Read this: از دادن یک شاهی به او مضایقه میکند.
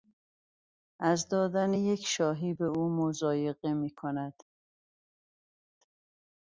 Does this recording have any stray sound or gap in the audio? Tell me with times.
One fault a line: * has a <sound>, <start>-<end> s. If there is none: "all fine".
all fine